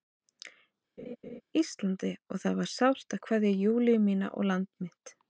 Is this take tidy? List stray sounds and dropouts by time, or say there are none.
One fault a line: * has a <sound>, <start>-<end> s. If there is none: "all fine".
* has a laugh, 1.0-1.4 s